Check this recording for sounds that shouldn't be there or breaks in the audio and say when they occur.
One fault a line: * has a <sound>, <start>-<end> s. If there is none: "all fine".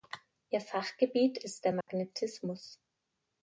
* has a dropout, 1.8-1.9 s